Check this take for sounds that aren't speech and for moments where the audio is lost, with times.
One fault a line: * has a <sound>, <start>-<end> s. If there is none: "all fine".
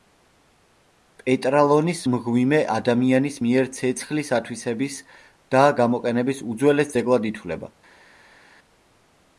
all fine